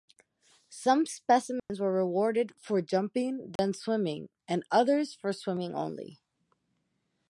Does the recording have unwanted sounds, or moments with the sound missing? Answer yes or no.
yes